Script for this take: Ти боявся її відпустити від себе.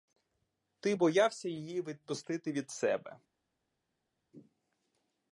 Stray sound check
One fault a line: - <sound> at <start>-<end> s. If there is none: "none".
none